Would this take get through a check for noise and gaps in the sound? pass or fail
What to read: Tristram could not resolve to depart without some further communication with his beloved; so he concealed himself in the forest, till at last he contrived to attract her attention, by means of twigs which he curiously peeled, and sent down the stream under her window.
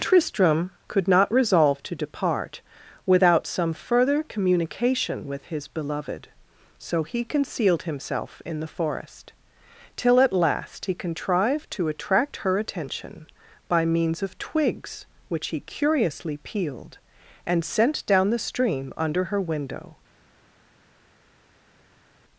pass